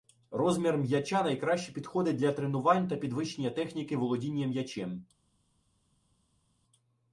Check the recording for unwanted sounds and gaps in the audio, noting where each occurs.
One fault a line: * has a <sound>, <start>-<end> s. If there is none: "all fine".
all fine